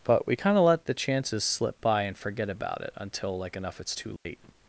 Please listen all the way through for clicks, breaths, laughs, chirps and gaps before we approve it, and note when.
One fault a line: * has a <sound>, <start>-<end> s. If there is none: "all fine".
* has a dropout, 4.2-4.2 s